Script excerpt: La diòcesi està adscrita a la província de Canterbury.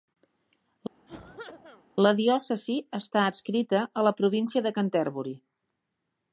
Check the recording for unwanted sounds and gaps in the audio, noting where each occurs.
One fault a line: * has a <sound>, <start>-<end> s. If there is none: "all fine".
* has a cough, 1.1-1.9 s